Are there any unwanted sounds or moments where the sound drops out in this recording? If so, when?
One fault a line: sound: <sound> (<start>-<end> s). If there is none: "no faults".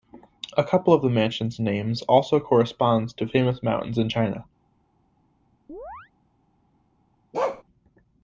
sound: chirp (5.7-6.1 s)
sound: bark (7.3-7.6 s)